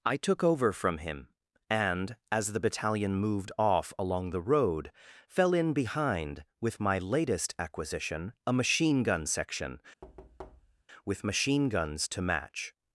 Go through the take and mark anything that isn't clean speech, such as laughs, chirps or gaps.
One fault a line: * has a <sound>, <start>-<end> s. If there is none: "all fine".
* has a thud, 10.0-10.8 s